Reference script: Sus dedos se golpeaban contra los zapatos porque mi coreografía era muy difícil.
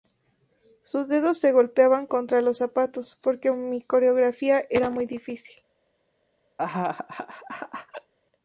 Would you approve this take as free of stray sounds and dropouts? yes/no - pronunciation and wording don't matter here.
no